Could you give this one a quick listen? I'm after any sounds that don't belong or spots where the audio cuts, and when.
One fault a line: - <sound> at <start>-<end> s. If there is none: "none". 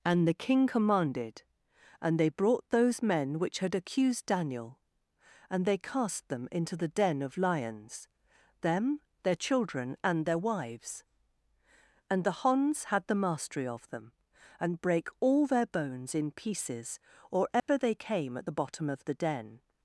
- dropout at 17.6-17.7 s